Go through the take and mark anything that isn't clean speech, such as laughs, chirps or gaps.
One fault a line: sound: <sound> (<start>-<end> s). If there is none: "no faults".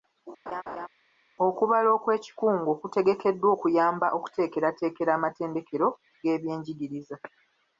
sound: laugh (0.5-0.9 s)